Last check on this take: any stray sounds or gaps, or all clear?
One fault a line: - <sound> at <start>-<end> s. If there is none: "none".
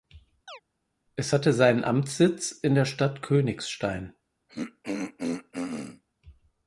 - chirp at 0.5-0.6 s
- throat clearing at 4.5-6.0 s